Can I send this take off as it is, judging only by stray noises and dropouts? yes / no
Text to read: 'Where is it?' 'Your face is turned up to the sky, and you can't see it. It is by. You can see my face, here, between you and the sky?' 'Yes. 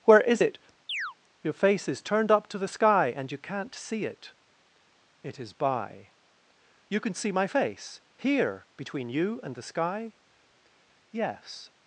no